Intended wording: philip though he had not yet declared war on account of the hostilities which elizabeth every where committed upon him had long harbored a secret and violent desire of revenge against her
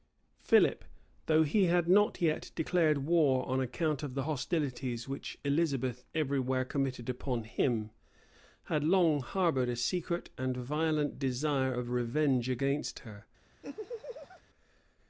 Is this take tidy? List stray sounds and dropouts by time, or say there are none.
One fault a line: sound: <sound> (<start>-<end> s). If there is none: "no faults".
sound: laugh (13.6-14.4 s)